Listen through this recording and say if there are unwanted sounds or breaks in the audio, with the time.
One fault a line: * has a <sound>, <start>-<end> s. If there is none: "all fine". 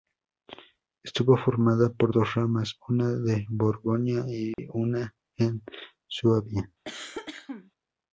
* has a dropout, 4.5-4.6 s
* has a cough, 6.8-7.7 s